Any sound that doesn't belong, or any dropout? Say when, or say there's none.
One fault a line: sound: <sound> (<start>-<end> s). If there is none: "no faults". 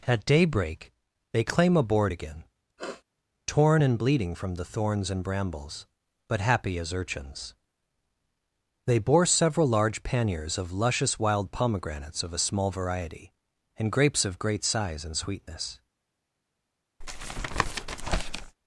sound: sniff (2.8-3.0 s)
sound: tap (17.0-18.6 s)